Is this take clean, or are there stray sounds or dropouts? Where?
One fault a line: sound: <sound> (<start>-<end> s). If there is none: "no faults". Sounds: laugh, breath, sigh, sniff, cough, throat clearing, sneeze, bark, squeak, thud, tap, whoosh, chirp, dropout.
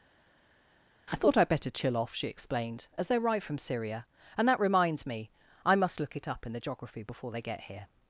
no faults